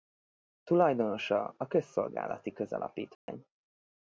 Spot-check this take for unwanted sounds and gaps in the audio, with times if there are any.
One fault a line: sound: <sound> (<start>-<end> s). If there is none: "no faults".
sound: dropout (3.1-3.3 s)